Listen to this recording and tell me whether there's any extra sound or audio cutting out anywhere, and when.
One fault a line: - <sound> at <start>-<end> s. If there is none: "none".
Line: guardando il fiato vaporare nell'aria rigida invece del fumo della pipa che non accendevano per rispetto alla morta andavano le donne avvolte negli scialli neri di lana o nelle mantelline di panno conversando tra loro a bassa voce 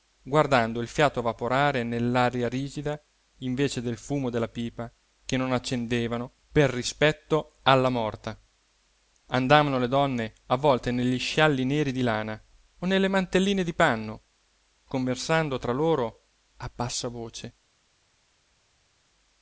none